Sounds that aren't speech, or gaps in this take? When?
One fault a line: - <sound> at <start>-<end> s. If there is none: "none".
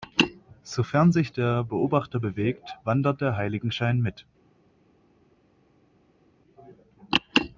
none